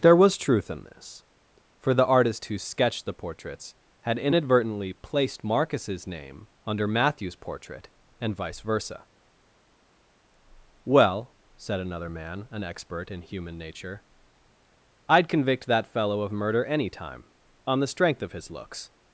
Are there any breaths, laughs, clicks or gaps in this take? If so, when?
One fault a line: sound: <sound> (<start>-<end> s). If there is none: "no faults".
no faults